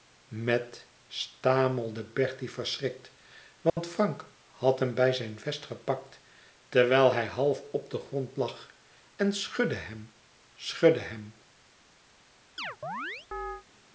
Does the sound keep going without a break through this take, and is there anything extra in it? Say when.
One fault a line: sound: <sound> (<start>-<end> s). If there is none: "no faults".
sound: dropout (3.7-3.8 s)
sound: chirp (12.6-13.6 s)